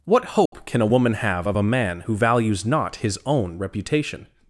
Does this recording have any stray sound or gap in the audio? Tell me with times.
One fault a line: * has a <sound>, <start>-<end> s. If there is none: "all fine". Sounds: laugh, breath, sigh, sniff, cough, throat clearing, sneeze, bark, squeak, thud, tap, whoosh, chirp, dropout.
* has a dropout, 0.5-0.5 s